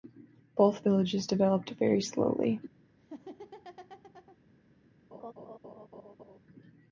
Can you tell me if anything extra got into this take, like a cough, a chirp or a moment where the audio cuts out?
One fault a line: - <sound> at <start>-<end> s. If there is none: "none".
- laugh at 3.0-4.4 s
- laugh at 5.1-6.4 s